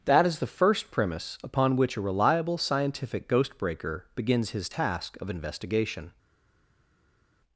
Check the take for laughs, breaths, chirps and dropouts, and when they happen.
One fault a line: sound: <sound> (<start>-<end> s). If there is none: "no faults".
no faults